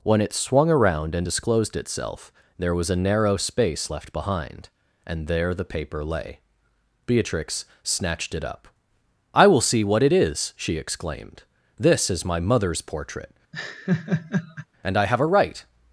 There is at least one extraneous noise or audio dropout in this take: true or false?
true